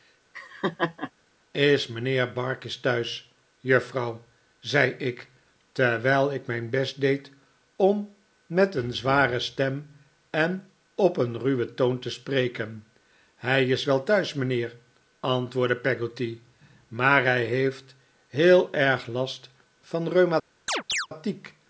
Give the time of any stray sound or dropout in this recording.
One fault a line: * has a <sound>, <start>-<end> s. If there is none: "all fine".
* has a laugh, 0.3-1.1 s
* has a chirp, 20.7-21.1 s